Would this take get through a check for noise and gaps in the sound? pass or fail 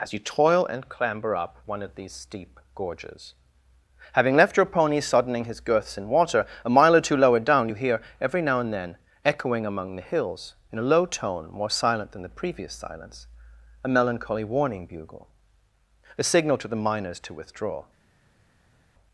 pass